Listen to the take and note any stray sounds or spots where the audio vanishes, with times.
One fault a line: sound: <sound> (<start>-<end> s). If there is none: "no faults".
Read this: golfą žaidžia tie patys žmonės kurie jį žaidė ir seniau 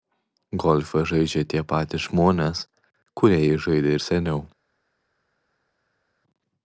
no faults